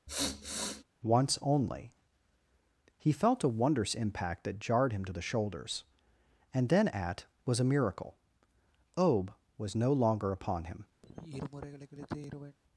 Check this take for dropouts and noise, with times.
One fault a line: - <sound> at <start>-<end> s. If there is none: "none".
- sniff at 0.1-0.8 s
- sigh at 11.0-12.6 s